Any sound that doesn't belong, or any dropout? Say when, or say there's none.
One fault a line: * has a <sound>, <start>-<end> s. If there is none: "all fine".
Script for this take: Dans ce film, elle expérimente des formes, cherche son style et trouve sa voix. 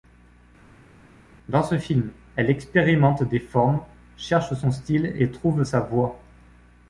all fine